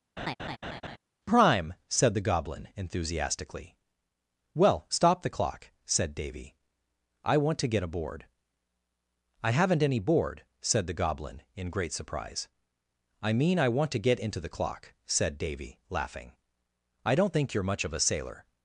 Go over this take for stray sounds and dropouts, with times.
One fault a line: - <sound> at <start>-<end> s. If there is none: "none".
- laugh at 0.2-1.0 s